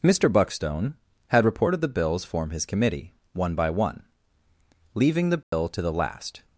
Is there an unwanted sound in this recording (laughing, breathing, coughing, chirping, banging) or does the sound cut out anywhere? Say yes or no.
yes